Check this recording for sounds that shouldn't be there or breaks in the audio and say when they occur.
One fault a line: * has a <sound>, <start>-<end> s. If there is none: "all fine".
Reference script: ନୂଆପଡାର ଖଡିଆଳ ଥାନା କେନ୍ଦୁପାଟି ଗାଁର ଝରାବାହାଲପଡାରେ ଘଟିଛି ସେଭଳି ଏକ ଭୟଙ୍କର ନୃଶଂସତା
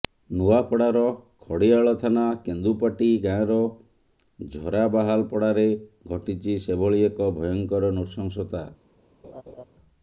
* has a laugh, 9.2-9.6 s